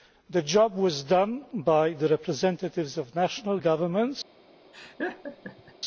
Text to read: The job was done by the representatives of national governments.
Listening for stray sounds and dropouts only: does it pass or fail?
fail